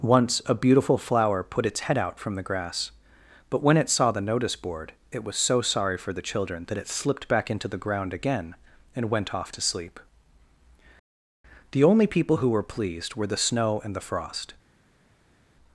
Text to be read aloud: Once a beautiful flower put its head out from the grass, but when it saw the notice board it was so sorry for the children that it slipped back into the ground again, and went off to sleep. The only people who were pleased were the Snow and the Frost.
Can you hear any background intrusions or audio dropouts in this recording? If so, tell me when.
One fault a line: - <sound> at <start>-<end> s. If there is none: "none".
none